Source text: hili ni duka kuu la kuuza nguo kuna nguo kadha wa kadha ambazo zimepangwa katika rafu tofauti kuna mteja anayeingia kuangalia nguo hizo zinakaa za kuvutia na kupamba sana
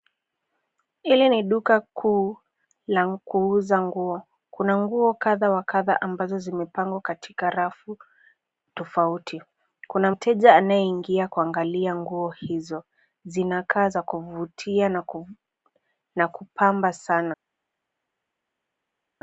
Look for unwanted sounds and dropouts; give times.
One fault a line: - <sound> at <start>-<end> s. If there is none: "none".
none